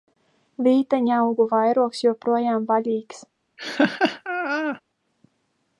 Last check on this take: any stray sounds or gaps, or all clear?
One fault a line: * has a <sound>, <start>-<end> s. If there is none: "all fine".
* has a laugh, 3.6-4.8 s